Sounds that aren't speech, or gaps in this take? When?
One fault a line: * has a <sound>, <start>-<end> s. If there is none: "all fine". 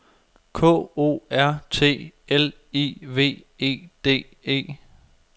all fine